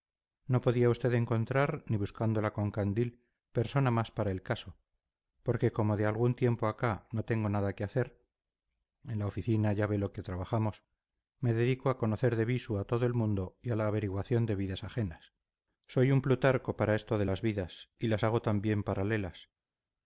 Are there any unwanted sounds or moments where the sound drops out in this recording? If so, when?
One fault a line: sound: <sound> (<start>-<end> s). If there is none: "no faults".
no faults